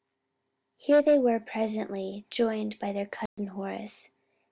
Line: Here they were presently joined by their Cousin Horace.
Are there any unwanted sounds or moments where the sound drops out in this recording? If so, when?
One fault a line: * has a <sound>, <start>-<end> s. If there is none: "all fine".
* has a dropout, 3.3-3.4 s